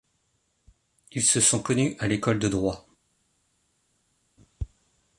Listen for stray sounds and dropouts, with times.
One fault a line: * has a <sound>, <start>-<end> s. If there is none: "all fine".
all fine